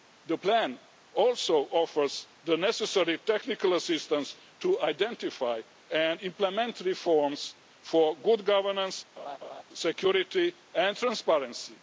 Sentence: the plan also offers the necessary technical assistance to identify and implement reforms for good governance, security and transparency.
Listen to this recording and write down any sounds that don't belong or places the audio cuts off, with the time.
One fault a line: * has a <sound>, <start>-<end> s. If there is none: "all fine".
* has a laugh, 9.2-9.6 s